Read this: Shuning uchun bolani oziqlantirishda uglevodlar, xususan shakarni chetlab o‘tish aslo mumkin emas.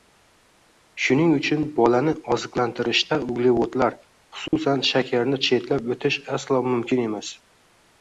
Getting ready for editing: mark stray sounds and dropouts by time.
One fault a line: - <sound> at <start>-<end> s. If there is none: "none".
- dropout at 4.5-4.5 s